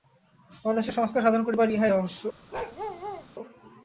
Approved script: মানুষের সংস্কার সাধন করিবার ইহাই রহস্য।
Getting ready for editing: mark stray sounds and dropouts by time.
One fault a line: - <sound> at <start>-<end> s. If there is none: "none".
- bark at 2.5-3.3 s